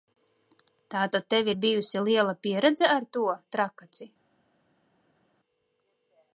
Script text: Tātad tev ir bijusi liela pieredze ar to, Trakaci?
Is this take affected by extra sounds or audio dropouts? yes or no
no